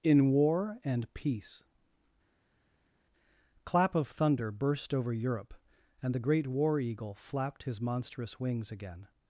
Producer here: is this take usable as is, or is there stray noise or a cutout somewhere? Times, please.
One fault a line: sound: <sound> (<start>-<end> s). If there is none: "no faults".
no faults